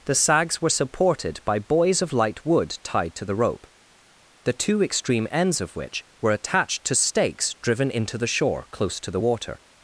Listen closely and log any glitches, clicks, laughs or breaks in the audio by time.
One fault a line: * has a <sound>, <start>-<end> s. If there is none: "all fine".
all fine